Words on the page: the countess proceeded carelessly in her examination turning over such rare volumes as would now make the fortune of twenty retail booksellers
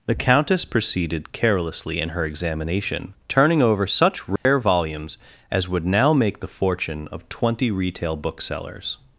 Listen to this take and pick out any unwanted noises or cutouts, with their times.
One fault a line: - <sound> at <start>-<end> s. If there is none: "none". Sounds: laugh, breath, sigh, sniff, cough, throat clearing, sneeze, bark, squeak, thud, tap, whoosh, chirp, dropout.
- dropout at 4.4-4.5 s